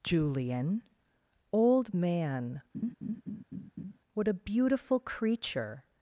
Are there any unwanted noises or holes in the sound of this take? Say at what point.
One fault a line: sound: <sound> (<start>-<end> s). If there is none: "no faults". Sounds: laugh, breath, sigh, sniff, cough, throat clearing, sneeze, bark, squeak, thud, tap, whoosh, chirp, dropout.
sound: laugh (2.7-4.0 s)